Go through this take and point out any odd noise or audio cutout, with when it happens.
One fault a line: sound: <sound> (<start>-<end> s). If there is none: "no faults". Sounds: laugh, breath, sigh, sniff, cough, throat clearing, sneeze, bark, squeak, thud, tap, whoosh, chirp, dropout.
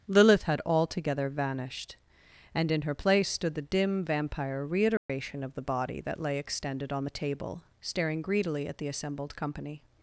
sound: dropout (5.0-5.1 s)